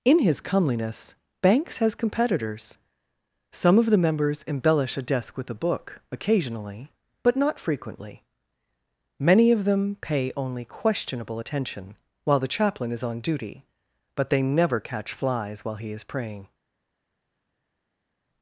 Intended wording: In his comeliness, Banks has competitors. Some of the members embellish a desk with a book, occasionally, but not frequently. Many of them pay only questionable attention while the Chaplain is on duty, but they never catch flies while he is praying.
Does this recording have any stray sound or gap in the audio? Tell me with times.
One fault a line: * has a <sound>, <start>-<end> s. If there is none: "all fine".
all fine